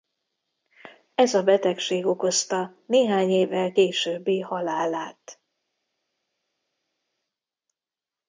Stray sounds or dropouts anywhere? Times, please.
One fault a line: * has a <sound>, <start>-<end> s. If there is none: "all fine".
all fine